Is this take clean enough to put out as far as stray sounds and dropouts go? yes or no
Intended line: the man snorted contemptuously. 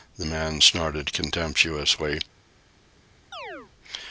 no